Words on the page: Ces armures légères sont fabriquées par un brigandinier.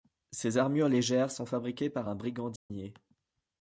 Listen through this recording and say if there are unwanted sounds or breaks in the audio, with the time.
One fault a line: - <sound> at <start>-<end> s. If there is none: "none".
- dropout at 2.6-2.7 s